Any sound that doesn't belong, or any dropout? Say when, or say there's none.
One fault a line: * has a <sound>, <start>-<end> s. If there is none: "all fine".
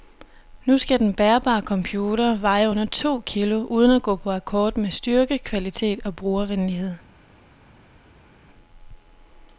all fine